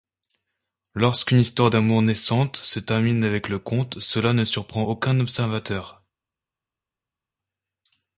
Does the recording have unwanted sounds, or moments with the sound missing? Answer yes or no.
no